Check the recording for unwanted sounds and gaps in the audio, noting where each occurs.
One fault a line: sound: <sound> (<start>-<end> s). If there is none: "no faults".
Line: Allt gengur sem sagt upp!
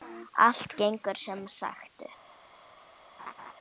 sound: laugh (3.2-3.5 s)